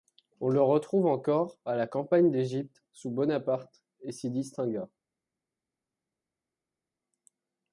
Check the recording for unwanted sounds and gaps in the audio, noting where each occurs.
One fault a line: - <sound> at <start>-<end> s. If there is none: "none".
none